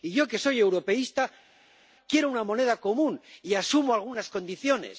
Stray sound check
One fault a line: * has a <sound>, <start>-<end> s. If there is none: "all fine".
all fine